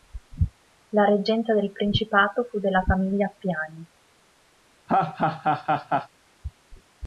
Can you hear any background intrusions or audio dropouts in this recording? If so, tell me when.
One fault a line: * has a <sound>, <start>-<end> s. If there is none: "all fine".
* has a laugh, 4.9-6.1 s